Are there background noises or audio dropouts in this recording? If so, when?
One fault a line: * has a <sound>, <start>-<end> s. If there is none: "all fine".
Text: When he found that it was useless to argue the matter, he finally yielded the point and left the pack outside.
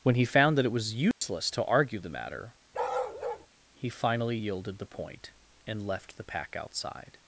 * has a dropout, 1.1-1.2 s
* has a bark, 2.7-3.5 s